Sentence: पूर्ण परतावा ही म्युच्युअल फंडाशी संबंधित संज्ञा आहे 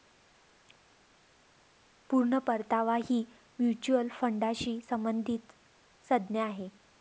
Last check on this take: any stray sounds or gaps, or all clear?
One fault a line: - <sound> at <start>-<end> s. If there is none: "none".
none